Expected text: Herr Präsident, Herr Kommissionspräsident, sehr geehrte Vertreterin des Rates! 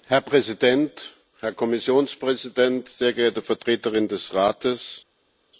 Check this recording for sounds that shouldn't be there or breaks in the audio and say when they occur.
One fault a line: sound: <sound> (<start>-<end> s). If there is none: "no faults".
no faults